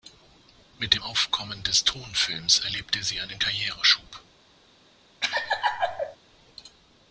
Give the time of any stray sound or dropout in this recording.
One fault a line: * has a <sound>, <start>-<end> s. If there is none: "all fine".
* has a laugh, 5.2-6.2 s